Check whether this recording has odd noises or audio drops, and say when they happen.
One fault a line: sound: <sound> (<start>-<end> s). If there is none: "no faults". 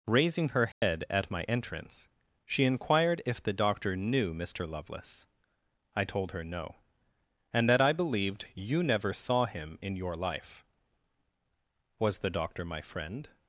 sound: dropout (0.7-0.8 s)